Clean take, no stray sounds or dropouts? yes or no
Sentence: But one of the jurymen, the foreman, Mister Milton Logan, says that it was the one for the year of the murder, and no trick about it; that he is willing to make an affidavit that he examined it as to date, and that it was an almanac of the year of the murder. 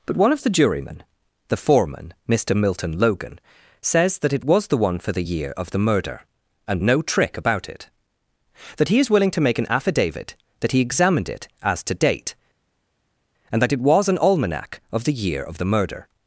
yes